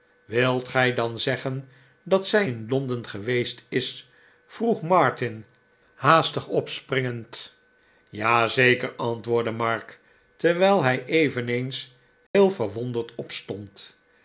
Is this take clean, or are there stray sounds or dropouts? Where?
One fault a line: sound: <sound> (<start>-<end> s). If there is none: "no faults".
sound: dropout (12.3-12.3 s)